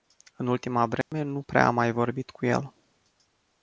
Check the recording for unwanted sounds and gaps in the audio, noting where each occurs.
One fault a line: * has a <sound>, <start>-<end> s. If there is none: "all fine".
* has a dropout, 1.0-1.1 s